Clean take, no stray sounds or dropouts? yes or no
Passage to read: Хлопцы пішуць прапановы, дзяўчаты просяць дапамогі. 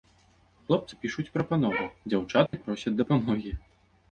no